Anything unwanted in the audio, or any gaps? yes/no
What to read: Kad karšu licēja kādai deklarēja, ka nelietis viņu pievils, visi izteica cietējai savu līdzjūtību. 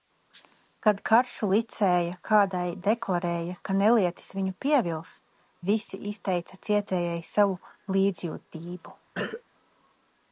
yes